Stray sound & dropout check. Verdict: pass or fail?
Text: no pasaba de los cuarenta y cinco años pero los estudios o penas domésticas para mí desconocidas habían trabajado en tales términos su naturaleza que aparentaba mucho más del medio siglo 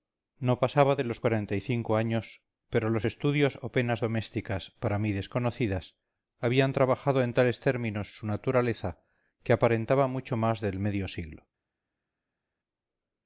pass